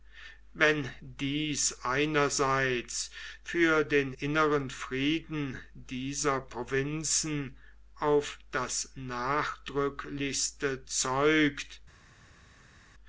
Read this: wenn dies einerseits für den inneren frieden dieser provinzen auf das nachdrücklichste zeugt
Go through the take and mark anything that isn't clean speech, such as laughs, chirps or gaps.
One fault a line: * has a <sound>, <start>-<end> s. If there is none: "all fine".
all fine